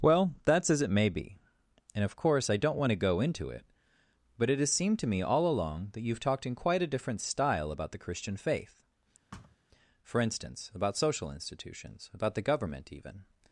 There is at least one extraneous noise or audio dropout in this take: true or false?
true